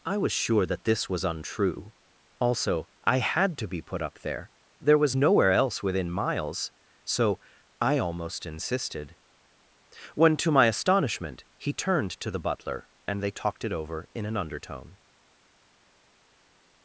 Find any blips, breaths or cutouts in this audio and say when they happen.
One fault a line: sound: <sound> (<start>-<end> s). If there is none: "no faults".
no faults